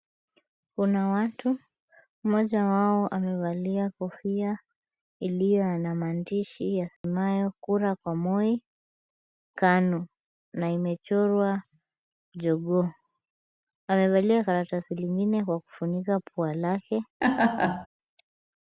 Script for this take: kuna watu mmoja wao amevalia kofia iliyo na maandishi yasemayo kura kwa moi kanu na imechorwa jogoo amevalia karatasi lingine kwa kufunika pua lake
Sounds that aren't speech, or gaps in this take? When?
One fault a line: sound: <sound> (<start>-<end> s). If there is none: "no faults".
sound: dropout (7.0-7.0 s)
sound: laugh (17.2-17.9 s)